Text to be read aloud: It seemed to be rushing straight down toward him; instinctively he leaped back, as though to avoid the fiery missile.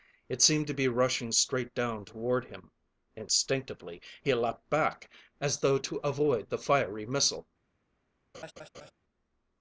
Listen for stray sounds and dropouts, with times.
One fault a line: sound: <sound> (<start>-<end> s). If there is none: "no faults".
sound: laugh (8.3-8.9 s)